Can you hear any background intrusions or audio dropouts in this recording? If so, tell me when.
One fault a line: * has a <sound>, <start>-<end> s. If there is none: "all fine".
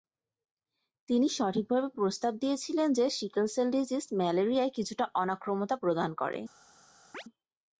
* has a chirp, 7.1-7.2 s